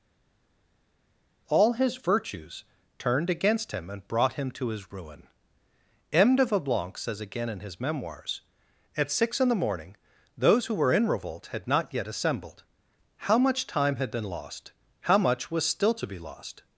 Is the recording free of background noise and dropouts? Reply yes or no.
yes